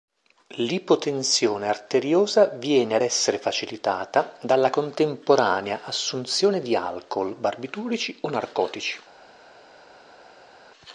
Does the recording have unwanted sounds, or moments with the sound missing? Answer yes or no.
no